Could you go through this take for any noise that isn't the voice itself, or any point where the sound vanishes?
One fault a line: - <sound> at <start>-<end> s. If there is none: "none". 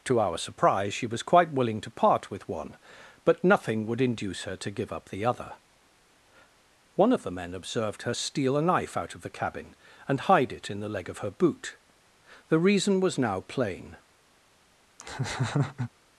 - laugh at 15.0-15.9 s